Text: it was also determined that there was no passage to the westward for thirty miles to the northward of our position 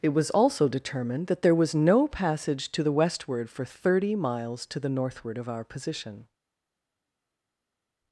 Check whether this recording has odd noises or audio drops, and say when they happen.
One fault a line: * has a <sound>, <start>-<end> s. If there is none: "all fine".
all fine